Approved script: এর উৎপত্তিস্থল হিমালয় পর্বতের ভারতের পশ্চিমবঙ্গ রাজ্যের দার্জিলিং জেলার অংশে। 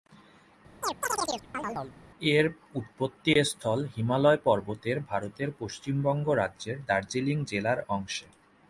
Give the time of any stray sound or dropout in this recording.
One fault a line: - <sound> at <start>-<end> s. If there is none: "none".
- chirp at 0.8-2.0 s